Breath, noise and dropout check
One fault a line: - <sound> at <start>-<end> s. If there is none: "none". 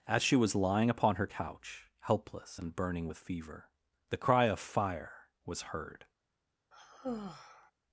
- sigh at 6.7-7.7 s